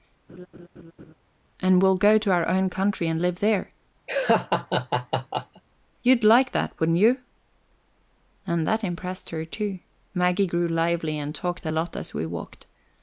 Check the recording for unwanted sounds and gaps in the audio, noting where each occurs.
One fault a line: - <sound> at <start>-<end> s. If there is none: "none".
- laugh at 0.3-1.1 s
- laugh at 4.1-5.6 s